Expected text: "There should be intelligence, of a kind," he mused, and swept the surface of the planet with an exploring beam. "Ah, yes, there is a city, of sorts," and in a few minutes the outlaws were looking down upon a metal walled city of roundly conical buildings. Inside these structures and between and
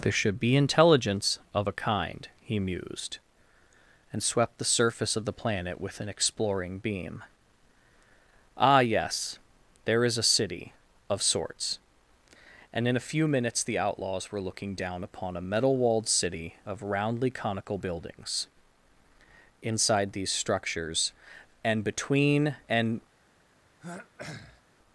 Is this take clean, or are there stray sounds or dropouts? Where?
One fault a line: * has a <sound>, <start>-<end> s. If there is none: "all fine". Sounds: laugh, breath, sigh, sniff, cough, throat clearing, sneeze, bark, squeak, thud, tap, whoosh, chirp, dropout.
* has a throat clearing, 23.8-24.6 s